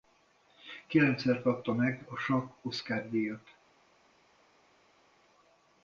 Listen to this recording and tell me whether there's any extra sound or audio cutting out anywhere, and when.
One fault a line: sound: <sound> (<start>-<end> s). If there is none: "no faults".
no faults